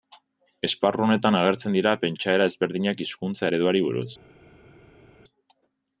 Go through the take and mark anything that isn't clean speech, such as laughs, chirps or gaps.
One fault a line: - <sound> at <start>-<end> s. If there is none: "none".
none